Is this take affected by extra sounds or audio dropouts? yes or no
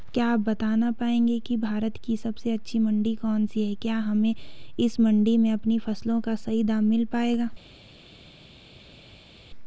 no